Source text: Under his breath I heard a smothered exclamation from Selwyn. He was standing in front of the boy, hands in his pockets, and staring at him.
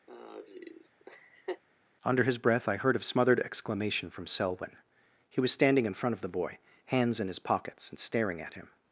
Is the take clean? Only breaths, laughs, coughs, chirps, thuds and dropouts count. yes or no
no